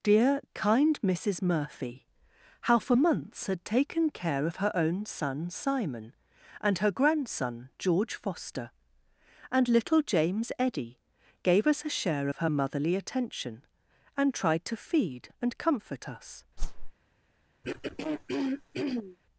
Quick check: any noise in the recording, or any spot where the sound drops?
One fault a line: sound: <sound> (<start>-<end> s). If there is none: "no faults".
sound: whoosh (16.6-16.9 s)
sound: throat clearing (17.6-19.2 s)